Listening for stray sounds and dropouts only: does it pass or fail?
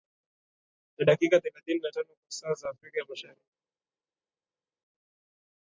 pass